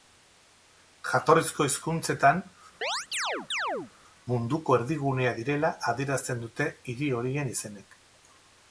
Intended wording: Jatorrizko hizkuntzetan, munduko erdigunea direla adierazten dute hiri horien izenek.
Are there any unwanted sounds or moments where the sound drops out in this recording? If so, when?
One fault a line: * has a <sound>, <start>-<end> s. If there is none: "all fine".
* has a chirp, 2.8-3.9 s